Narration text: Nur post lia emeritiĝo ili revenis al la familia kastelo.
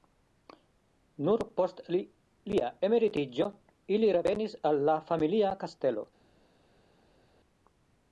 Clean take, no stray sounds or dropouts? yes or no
yes